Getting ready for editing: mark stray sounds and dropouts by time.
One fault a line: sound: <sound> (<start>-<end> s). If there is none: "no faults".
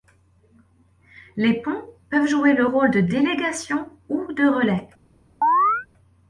sound: chirp (5.4-5.9 s)